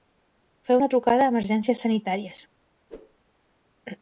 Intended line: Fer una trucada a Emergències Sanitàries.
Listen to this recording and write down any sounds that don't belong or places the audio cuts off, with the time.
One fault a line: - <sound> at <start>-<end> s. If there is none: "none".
- whoosh at 2.9-3.2 s